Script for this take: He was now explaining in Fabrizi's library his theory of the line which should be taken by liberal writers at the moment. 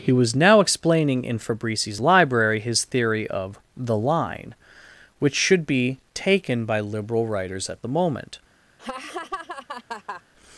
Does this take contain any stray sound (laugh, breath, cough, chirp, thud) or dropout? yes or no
yes